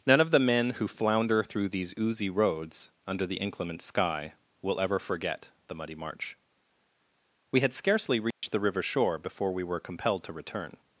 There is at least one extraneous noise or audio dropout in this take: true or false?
true